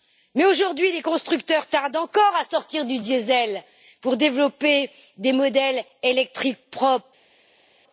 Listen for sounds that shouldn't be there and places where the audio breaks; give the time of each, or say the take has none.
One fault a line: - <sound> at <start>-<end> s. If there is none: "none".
none